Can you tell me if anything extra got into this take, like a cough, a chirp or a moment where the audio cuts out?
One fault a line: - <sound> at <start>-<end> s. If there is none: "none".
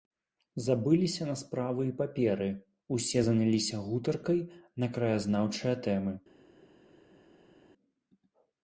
none